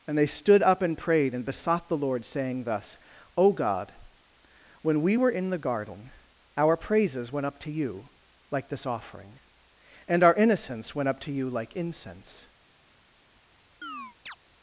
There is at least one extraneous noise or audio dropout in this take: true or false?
true